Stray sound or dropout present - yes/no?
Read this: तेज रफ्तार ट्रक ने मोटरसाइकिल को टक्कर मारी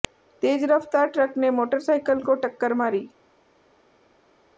no